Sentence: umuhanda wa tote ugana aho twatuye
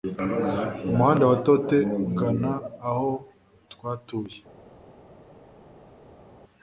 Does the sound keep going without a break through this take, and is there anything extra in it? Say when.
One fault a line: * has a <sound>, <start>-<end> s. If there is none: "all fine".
all fine